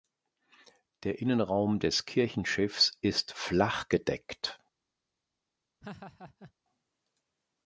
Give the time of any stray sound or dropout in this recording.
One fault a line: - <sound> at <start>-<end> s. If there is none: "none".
- laugh at 5.8-6.5 s